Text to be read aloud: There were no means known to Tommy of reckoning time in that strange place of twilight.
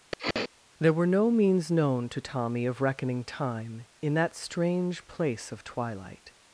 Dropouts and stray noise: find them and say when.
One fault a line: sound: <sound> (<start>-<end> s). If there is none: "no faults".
sound: sniff (0.1-0.5 s)